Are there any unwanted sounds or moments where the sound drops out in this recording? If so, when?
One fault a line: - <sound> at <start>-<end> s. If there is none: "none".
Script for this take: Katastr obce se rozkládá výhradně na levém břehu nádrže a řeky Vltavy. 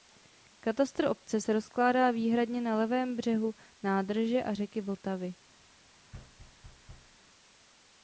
- thud at 6.1-7.2 s